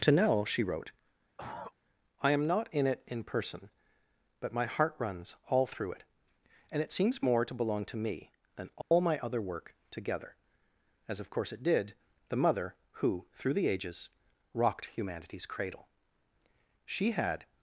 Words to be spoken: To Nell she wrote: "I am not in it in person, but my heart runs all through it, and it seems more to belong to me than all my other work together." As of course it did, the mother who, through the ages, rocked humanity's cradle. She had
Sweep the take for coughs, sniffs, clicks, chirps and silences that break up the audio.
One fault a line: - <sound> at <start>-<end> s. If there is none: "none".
- cough at 1.4-1.7 s
- dropout at 8.8-8.9 s